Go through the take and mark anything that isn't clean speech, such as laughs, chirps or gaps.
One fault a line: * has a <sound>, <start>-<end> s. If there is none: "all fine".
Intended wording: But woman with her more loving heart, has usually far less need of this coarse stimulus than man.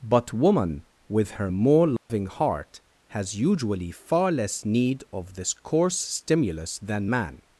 * has a dropout, 2.0-2.1 s